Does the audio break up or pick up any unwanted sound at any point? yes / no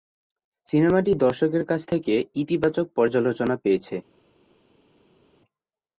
no